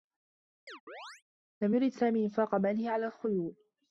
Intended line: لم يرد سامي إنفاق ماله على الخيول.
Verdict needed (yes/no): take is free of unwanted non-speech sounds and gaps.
no